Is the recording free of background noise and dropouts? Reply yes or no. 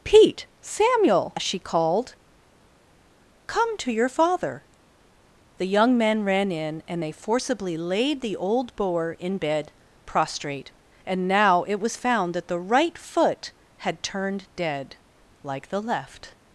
yes